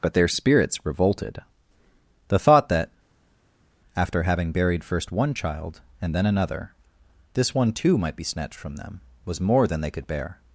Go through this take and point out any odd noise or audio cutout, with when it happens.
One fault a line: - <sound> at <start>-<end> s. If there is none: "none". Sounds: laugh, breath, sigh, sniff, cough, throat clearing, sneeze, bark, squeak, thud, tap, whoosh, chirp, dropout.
none